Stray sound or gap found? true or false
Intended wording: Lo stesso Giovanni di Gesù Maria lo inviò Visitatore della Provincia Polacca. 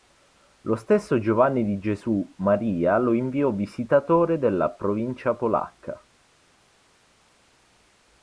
false